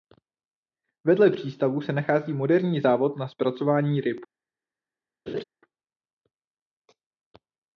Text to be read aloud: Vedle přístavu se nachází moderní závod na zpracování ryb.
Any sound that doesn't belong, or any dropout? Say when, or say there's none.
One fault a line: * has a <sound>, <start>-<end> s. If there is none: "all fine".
* has a laugh, 5.3-5.4 s